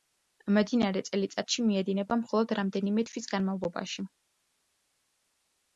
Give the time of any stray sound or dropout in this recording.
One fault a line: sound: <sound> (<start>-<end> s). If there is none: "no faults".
no faults